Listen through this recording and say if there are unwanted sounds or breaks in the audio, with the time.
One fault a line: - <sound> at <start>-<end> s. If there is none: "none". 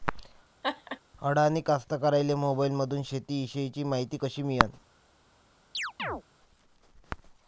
- laugh at 0.6-1.0 s
- chirp at 5.7-6.2 s